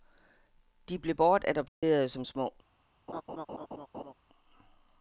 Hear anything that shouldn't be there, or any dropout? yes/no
yes